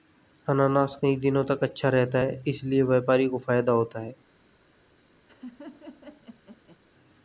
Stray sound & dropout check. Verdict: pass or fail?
fail